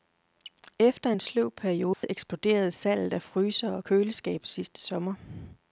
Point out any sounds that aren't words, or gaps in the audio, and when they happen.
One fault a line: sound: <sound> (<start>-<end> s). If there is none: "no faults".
sound: dropout (1.9-2.0 s)